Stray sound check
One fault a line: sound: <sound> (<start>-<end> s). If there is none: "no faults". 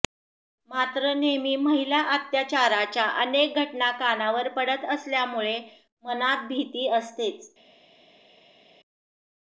no faults